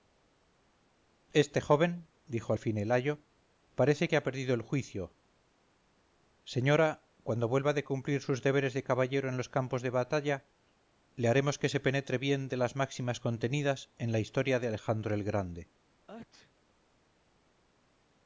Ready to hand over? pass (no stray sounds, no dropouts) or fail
fail